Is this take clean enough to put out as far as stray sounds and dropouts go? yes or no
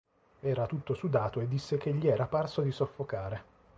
yes